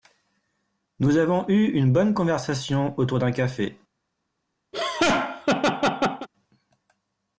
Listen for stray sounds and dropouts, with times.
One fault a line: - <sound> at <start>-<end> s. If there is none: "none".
- laugh at 4.7-6.3 s